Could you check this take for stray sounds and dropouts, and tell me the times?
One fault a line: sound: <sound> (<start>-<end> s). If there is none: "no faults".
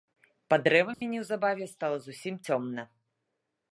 sound: dropout (0.9-1.0 s)